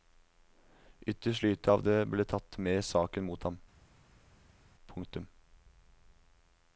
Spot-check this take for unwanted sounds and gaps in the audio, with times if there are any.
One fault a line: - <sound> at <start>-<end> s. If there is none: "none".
none